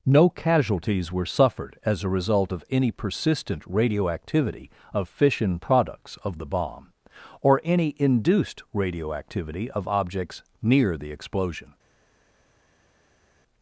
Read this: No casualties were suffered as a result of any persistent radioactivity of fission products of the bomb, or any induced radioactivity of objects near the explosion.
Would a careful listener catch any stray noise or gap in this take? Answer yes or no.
no